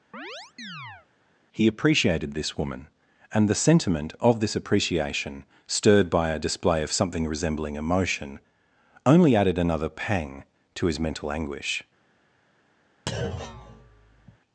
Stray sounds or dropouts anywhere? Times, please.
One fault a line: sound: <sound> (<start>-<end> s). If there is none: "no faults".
sound: chirp (0.1-1.1 s)
sound: thud (13.1-14.4 s)